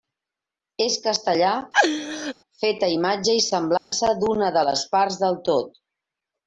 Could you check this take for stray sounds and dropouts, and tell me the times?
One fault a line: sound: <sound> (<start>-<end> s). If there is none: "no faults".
sound: laugh (1.7-2.3 s)
sound: dropout (3.8-3.9 s)